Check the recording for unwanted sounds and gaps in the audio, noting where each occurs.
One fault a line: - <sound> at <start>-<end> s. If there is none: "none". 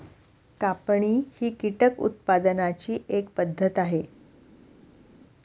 none